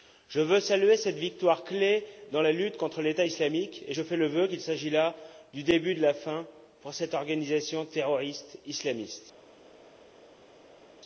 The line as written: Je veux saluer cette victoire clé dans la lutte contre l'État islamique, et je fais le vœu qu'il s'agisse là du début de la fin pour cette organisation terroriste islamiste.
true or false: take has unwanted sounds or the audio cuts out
false